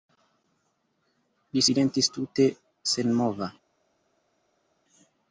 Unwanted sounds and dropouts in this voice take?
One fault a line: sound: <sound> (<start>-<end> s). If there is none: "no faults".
no faults